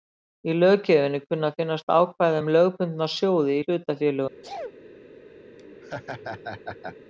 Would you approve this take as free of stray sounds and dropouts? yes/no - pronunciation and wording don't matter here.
no